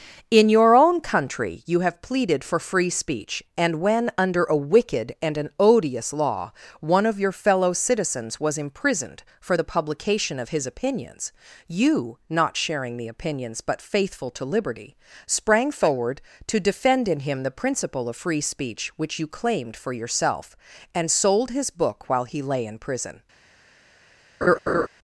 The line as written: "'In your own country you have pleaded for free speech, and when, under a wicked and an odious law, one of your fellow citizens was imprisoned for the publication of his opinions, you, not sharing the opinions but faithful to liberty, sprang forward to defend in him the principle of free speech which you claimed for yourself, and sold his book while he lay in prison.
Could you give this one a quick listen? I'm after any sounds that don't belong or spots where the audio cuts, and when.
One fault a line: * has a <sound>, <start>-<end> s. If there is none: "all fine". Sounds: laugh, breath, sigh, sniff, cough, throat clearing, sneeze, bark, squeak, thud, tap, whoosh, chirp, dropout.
* has a laugh, 24.4-24.9 s